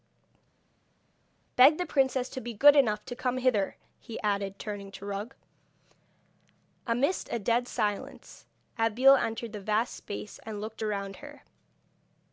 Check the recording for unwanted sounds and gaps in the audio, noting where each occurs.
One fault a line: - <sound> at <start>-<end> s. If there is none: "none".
none